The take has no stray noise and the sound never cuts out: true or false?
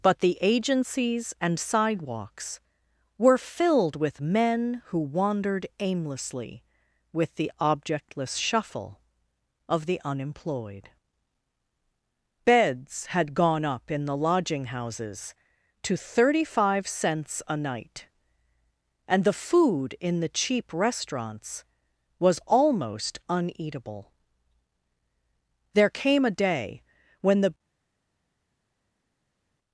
true